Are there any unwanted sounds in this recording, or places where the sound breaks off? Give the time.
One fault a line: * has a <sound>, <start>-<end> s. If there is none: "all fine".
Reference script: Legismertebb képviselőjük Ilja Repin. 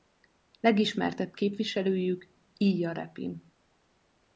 all fine